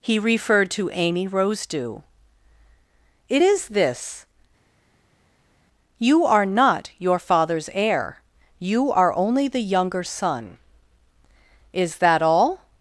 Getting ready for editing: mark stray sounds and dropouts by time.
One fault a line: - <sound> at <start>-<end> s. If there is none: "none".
none